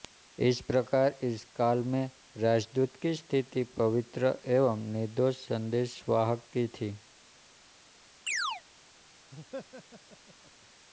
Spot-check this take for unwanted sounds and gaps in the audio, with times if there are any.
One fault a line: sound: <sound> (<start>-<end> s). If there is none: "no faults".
sound: chirp (8.3-8.6 s)
sound: laugh (9.3-10.7 s)